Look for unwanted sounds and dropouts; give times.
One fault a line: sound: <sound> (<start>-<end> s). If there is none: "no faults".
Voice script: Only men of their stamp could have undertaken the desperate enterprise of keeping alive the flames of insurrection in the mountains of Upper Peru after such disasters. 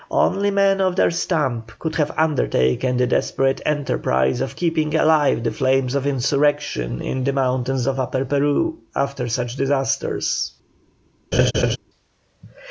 sound: laugh (11.3-11.8 s)